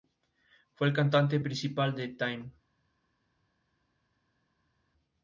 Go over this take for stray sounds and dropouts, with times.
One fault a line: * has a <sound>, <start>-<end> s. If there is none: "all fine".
all fine